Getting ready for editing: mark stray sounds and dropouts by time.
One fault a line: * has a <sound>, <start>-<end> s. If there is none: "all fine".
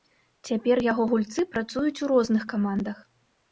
all fine